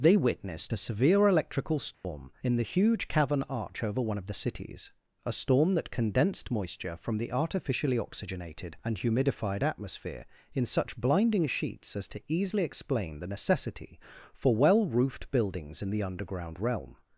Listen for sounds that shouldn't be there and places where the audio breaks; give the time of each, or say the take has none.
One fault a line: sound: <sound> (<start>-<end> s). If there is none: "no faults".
sound: dropout (1.9-2.0 s)